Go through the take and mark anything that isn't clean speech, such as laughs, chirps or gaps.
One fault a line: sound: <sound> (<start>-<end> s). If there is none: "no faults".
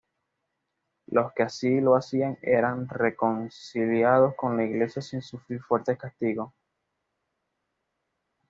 no faults